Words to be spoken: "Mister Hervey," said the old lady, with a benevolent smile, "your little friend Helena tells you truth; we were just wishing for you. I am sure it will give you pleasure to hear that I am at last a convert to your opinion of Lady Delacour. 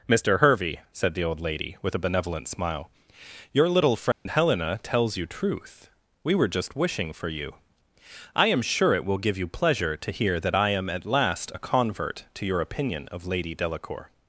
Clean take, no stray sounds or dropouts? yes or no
no